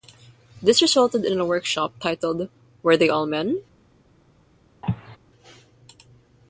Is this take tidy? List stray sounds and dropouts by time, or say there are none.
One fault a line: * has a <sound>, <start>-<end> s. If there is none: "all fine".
* has a cough, 4.8-5.2 s